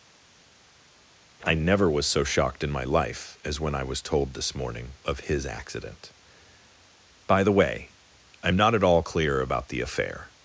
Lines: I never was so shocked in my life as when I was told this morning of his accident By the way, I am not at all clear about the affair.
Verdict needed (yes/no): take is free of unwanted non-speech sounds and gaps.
yes